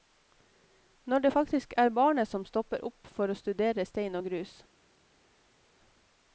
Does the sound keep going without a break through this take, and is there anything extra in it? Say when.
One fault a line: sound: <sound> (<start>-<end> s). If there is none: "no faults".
no faults